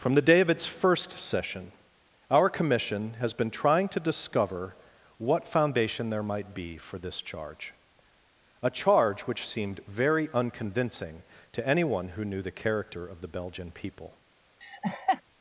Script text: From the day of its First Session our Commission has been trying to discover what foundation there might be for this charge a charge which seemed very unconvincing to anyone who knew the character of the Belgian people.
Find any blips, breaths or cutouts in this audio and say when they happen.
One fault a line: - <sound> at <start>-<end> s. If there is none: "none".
- laugh at 14.6-15.2 s